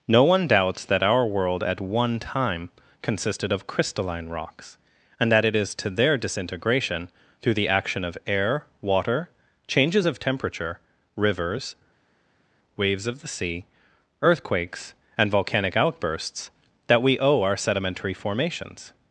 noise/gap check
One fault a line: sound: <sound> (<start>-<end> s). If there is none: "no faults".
no faults